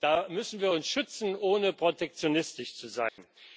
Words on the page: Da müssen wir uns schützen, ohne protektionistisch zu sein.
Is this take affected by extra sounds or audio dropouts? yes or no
yes